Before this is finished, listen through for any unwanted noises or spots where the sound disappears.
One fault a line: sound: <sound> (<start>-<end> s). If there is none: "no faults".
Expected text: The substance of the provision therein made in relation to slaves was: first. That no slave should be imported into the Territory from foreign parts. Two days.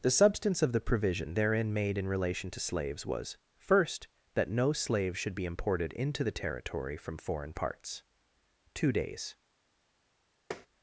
sound: tap (10.5-10.7 s)